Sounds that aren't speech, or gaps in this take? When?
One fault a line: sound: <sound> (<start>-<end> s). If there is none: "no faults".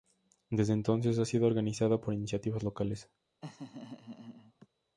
sound: laugh (3.4-4.7 s)